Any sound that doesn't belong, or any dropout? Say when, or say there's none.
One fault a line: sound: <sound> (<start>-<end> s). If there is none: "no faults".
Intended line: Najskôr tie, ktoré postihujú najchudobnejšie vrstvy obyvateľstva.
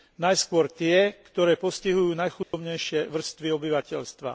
sound: dropout (2.4-2.5 s)